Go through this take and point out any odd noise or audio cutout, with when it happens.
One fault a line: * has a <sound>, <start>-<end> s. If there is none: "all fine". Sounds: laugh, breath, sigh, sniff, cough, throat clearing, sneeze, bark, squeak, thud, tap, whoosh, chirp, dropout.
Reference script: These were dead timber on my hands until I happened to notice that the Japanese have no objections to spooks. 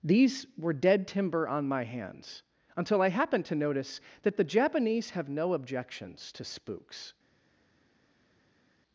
all fine